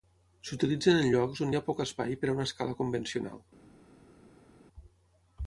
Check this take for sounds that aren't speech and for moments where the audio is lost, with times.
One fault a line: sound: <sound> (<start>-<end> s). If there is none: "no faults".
no faults